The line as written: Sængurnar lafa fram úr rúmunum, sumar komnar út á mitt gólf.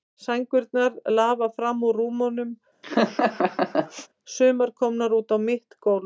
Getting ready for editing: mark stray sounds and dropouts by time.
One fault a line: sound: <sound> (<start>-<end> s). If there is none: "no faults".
sound: laugh (2.8-4.1 s)